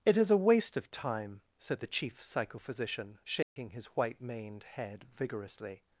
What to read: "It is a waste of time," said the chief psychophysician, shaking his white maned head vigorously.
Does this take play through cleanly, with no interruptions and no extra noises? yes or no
no